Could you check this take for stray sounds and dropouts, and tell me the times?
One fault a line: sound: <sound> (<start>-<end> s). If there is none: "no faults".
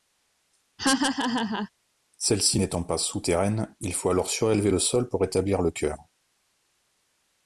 sound: laugh (0.8-1.7 s)